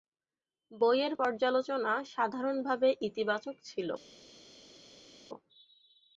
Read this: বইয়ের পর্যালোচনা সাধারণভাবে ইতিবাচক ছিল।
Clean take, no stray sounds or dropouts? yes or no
yes